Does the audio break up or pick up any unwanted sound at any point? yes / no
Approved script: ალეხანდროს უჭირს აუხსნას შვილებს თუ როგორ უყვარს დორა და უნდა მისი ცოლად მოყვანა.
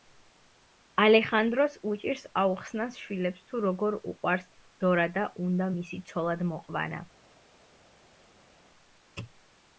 no